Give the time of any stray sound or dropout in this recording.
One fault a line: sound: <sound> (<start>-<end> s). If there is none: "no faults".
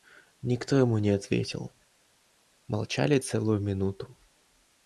no faults